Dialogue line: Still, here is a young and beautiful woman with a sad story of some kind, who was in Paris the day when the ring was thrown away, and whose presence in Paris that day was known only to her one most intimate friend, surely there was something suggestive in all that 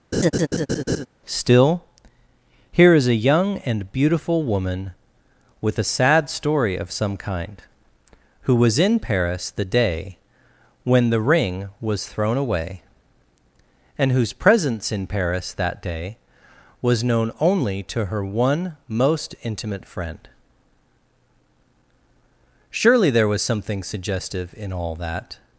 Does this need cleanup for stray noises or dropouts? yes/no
yes